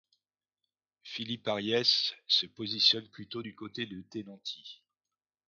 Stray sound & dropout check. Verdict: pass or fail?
pass